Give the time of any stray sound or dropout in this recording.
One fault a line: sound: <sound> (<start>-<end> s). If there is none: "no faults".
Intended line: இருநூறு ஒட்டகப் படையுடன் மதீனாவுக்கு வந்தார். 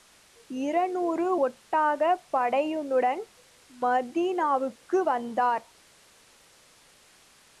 no faults